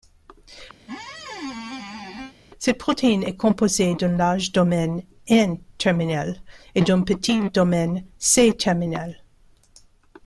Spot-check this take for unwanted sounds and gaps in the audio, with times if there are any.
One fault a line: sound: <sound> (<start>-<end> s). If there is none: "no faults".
sound: squeak (0.8-2.3 s)